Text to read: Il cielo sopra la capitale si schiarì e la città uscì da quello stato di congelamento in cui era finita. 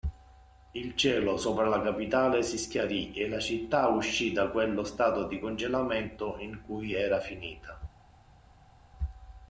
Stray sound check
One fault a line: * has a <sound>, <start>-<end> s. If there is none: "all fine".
all fine